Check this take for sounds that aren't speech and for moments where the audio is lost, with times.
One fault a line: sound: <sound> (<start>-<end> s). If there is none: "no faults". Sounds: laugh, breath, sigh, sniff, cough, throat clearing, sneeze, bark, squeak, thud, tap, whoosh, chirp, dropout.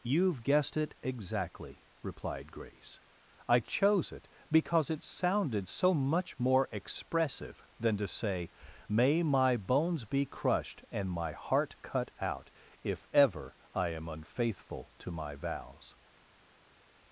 no faults